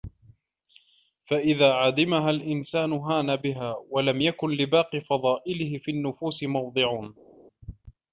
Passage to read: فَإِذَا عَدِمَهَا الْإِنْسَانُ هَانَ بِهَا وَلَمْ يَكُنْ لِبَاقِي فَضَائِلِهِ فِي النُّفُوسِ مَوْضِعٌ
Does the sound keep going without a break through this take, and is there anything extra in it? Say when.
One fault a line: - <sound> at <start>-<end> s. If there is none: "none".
none